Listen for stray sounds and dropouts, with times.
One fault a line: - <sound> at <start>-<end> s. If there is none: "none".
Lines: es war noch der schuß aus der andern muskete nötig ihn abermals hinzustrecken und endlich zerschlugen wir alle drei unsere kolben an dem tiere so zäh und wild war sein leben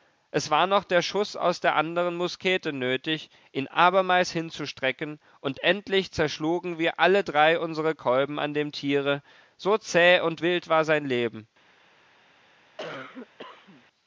- cough at 12.8-13.8 s